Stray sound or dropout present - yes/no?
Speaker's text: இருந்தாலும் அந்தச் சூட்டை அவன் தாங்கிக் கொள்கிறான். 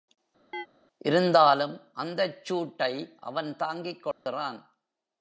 yes